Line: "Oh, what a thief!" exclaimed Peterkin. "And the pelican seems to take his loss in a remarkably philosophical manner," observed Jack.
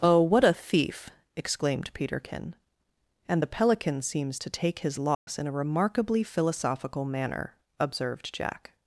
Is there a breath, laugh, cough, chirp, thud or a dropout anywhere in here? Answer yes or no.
yes